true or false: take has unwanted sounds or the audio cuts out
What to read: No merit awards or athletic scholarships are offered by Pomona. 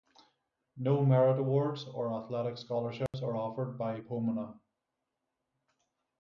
true